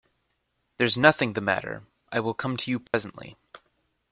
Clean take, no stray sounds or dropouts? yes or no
no